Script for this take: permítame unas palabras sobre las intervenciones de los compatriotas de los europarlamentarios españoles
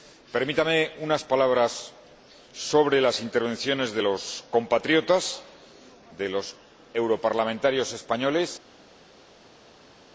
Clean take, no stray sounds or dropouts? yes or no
yes